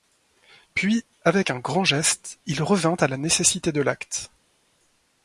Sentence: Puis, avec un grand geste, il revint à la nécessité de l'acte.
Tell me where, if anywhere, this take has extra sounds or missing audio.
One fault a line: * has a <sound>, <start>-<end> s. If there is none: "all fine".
all fine